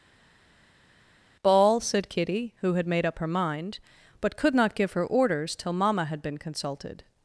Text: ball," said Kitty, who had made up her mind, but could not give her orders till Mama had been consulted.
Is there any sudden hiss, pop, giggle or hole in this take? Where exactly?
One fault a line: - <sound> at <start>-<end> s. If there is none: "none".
none